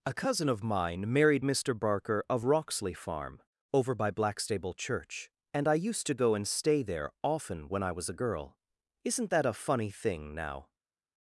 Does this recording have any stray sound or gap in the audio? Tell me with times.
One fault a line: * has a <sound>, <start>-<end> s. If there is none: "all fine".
all fine